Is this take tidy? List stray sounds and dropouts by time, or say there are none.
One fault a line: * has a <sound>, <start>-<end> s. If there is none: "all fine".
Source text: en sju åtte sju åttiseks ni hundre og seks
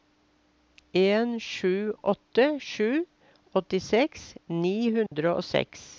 * has a dropout, 5.1-5.1 s